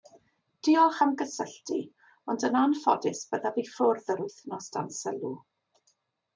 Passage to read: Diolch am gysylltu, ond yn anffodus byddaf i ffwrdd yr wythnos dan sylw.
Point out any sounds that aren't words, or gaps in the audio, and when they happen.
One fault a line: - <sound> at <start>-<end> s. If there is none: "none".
none